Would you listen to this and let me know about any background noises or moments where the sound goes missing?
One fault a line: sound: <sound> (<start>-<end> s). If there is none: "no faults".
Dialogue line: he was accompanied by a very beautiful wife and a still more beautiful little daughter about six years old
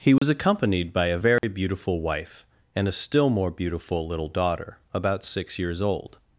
sound: dropout (0.2-0.2 s)
sound: dropout (1.4-1.4 s)